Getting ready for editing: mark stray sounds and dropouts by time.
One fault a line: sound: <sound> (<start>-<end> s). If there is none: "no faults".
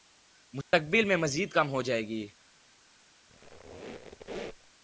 sound: dropout (0.6-0.7 s)
sound: squeak (3.3-4.7 s)